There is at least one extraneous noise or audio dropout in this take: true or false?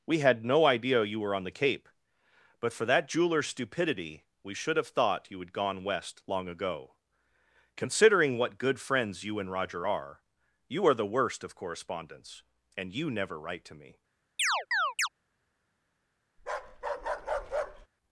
true